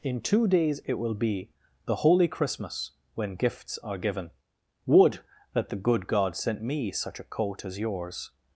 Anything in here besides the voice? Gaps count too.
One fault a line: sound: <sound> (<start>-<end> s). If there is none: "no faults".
no faults